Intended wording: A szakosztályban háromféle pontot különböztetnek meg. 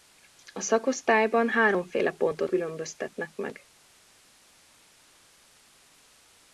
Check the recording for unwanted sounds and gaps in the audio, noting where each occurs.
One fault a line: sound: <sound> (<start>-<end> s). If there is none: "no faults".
no faults